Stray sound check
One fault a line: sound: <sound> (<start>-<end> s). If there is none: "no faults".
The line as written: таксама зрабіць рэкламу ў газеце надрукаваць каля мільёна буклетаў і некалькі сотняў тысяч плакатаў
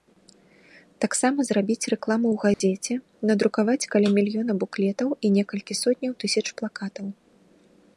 sound: dropout (2.5-2.6 s)